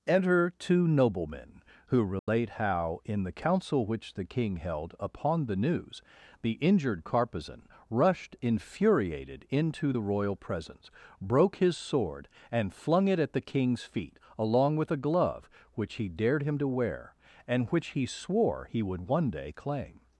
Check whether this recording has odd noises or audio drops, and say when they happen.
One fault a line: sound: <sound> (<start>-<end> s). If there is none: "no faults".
sound: dropout (2.2-2.3 s)